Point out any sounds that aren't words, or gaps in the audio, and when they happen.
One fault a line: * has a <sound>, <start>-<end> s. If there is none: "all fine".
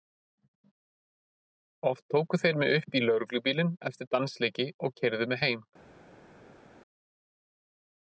all fine